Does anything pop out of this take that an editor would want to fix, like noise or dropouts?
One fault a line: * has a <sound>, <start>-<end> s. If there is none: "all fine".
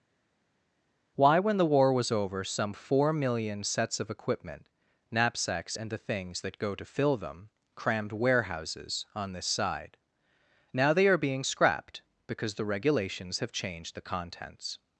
all fine